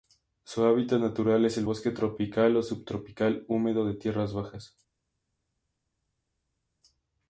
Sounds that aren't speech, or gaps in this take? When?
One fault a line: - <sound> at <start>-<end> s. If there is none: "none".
none